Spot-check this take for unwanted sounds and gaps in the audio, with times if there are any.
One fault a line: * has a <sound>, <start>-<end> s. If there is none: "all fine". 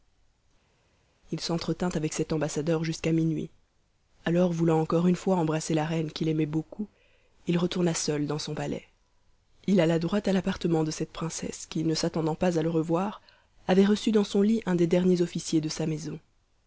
all fine